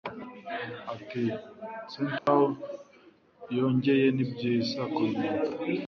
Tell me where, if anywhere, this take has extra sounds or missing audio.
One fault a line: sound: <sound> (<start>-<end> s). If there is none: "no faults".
sound: dropout (2.2-2.3 s)